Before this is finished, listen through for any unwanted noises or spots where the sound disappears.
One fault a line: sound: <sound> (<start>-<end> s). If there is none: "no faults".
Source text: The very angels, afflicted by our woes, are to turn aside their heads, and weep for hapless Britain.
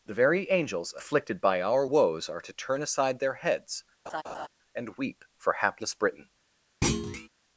sound: laugh (4.1-4.5 s)
sound: thud (6.8-7.3 s)